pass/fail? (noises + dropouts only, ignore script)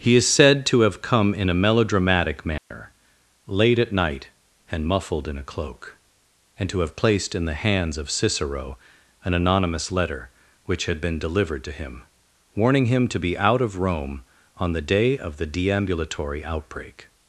fail